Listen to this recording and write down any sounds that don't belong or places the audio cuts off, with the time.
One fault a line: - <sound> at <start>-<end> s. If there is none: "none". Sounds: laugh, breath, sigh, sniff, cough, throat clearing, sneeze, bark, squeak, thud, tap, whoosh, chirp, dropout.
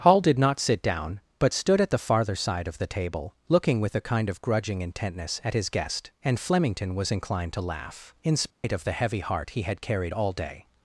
- dropout at 8.5-8.6 s